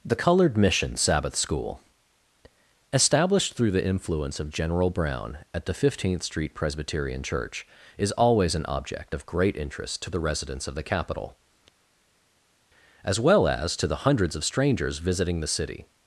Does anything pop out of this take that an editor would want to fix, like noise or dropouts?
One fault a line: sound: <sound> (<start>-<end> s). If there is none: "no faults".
no faults